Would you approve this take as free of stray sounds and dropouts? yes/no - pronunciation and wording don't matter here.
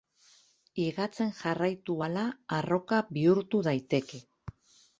yes